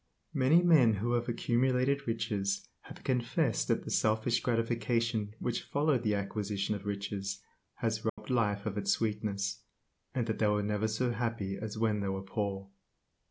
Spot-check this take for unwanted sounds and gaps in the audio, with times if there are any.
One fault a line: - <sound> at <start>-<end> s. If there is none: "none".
- dropout at 8.1-8.2 s